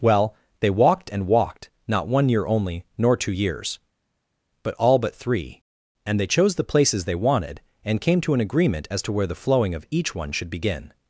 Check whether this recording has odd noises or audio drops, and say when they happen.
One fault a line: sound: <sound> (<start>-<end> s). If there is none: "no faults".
no faults